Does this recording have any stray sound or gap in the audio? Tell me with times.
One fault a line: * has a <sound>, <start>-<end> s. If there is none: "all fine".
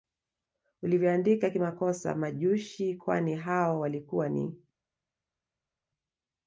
all fine